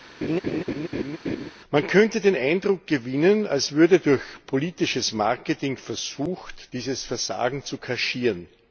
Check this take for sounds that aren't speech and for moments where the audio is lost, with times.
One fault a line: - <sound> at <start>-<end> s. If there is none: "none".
- laugh at 0.2-1.5 s